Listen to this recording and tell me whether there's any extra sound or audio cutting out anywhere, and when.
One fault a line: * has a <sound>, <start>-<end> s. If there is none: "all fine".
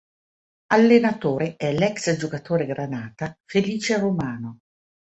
all fine